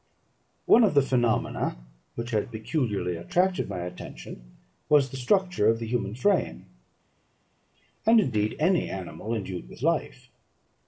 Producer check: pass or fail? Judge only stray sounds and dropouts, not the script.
pass